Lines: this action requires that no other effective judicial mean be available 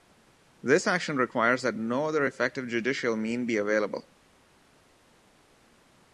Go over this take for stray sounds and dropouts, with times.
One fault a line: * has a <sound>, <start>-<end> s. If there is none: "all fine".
all fine